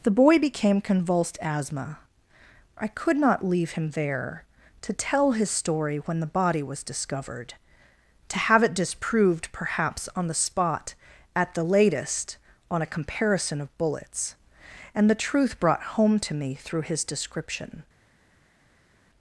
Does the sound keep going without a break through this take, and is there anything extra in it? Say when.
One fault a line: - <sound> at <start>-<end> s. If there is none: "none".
none